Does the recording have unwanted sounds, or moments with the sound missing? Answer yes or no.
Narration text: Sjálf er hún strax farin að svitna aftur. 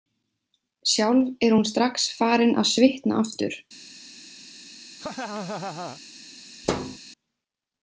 yes